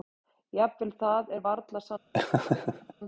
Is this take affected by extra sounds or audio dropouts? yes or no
yes